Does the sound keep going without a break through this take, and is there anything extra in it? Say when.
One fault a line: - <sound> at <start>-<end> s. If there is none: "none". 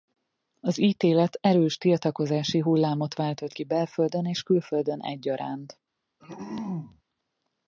- throat clearing at 6.2-7.0 s